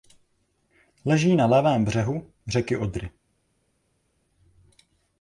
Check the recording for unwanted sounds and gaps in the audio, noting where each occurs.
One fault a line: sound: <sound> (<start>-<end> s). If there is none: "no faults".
no faults